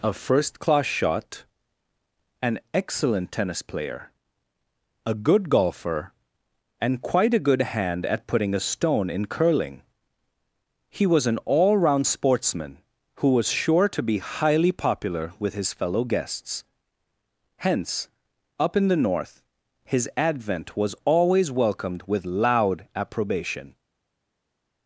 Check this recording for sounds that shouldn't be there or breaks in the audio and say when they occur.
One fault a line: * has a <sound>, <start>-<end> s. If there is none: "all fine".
all fine